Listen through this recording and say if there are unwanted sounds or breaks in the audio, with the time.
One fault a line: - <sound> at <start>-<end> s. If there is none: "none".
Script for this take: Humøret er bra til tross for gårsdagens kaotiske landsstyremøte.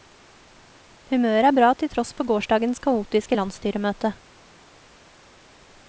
none